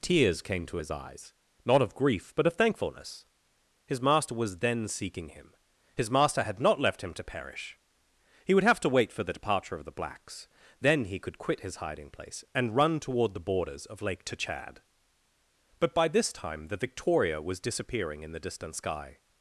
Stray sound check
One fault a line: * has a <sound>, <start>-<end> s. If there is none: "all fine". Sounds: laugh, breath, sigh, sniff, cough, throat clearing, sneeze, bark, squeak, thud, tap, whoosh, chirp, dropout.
all fine